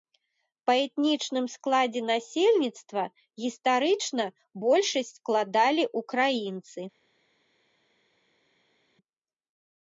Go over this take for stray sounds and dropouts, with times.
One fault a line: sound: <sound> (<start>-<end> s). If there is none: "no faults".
no faults